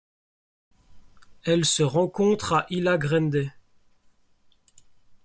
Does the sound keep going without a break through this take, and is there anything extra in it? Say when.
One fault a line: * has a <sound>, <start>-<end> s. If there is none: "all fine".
all fine